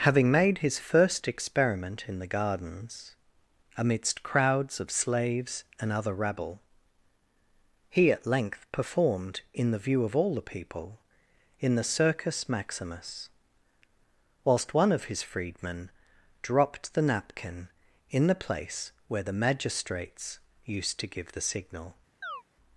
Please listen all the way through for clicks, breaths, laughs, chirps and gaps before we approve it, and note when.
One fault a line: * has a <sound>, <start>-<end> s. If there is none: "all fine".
* has a chirp, 22.2-22.4 s